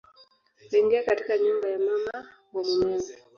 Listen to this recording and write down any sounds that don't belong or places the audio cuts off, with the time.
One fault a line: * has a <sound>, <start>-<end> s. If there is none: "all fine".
all fine